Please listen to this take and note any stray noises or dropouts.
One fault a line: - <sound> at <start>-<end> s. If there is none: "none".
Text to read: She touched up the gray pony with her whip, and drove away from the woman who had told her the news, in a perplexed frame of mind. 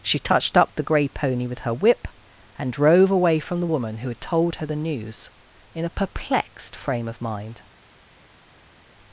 none